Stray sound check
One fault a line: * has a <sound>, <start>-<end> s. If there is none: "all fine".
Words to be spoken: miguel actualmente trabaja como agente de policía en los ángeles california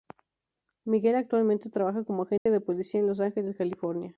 * has a dropout, 2.4-2.5 s